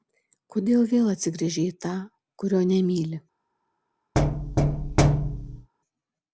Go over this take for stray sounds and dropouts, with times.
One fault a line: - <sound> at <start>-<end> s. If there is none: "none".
- thud at 4.1-5.7 s